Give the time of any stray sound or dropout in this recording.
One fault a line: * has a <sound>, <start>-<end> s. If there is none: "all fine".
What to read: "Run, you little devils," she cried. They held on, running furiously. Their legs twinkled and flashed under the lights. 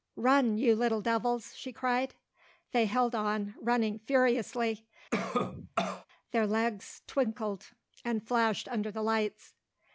* has a cough, 5.1-6.1 s